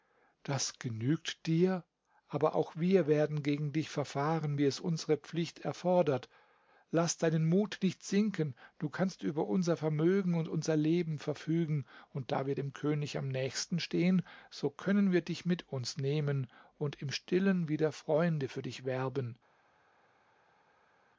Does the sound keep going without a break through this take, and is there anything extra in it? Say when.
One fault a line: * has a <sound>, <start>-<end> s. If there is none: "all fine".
all fine